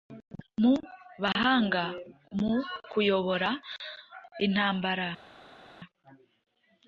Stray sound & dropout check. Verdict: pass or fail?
pass